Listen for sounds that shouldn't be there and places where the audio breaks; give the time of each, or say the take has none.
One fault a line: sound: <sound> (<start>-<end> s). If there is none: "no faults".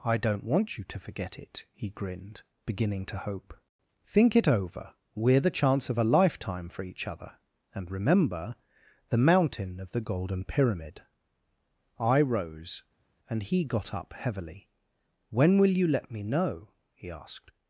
no faults